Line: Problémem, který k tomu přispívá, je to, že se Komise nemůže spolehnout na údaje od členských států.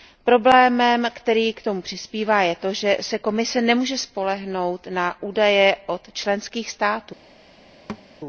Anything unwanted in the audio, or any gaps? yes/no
yes